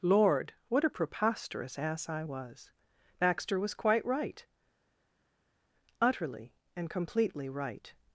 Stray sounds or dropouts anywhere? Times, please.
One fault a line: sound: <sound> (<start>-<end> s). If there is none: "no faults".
no faults